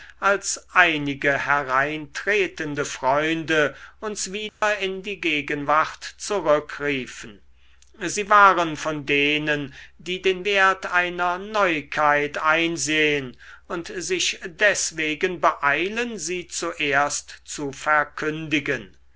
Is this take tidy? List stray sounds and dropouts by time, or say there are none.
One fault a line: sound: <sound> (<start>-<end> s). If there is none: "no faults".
sound: dropout (4.5-4.6 s)